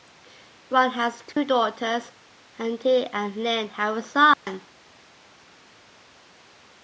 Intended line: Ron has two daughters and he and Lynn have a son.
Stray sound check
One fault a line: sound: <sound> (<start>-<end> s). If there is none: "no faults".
sound: dropout (1.3-1.4 s)
sound: dropout (4.3-4.5 s)